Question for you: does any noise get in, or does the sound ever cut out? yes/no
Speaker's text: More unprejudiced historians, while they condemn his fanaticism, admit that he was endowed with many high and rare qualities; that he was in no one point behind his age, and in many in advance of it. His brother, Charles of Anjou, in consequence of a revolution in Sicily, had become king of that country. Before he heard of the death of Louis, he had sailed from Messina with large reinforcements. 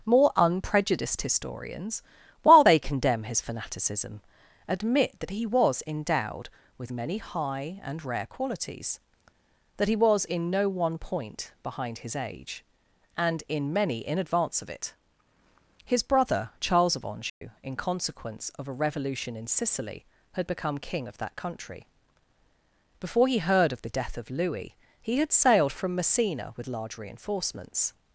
yes